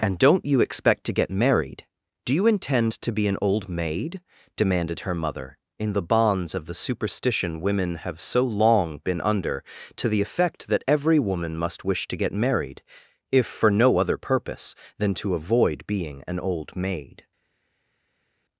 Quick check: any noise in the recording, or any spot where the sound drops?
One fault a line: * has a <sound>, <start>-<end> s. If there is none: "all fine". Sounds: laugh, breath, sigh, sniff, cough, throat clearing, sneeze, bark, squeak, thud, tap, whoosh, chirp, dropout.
all fine